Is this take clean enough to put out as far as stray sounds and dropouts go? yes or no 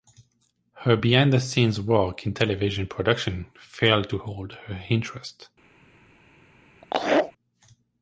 no